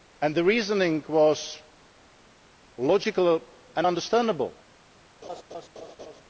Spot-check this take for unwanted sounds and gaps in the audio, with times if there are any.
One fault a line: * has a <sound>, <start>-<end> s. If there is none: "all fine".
* has a laugh, 5.2-6.2 s